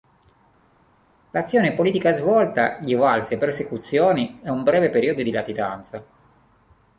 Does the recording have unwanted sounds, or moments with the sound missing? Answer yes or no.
no